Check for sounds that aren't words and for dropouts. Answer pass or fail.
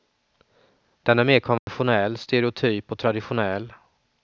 fail